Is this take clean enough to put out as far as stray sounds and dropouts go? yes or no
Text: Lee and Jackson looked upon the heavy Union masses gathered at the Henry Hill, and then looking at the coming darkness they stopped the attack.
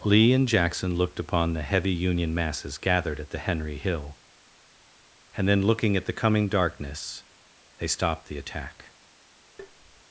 no